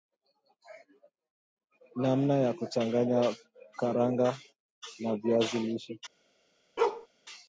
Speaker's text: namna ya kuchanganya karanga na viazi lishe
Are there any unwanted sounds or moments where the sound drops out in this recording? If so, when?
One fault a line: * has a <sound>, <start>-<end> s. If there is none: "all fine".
* has a bark, 6.8-7.1 s